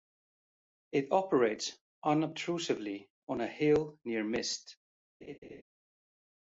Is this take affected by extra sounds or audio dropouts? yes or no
yes